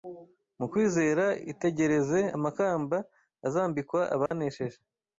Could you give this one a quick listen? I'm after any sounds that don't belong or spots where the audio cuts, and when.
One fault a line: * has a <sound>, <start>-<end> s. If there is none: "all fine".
* has a dropout, 4.3-4.3 s